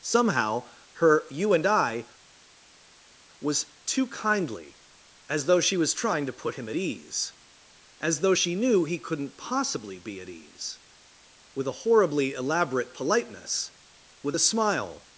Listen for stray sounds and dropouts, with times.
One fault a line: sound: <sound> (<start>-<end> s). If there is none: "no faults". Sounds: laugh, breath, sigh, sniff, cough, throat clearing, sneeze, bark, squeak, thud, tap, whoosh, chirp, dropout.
no faults